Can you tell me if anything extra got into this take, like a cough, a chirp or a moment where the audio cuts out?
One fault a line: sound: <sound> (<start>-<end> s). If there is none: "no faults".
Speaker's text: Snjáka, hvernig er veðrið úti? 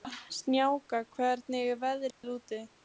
sound: dropout (2.1-2.2 s)